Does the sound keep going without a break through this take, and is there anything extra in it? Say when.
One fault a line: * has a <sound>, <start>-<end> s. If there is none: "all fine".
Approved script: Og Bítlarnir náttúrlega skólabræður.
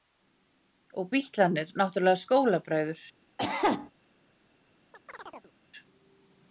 * has a cough, 3.4-3.9 s
* has a chirp, 4.9-5.5 s